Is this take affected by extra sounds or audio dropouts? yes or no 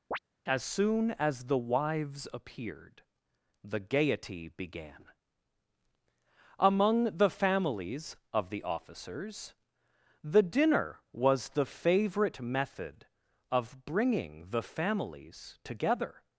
yes